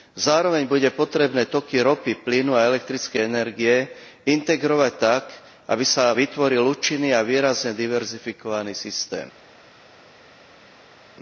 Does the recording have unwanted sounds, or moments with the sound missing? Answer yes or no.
no